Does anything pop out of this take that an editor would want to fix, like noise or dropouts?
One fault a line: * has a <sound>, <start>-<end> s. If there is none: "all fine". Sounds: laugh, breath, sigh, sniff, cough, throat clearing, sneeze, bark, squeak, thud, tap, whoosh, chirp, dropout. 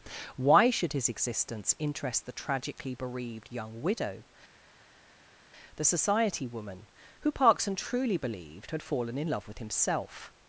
all fine